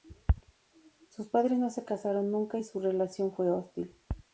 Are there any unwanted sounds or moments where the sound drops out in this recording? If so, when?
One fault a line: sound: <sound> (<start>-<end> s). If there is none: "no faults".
no faults